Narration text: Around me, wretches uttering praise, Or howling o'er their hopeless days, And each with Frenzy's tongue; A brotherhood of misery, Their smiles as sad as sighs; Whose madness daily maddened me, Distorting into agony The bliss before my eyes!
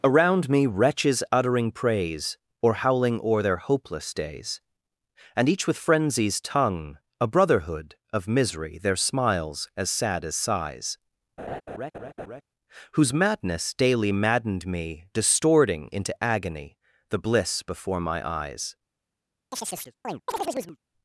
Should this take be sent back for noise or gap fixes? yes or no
yes